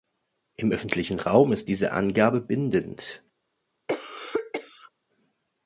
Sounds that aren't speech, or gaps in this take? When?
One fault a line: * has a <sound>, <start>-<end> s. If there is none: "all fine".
* has a cough, 3.9-4.9 s